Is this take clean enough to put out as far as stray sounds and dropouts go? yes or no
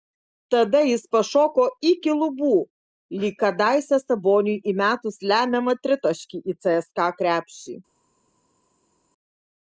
yes